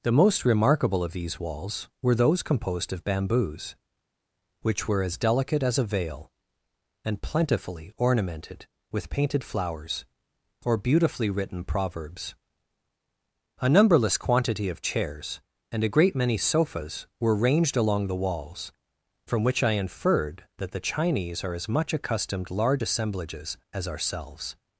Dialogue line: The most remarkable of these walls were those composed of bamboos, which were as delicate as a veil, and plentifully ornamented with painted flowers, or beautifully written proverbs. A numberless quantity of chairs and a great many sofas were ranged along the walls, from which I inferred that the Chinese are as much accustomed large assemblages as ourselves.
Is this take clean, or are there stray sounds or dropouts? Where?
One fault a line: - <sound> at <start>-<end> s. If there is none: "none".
none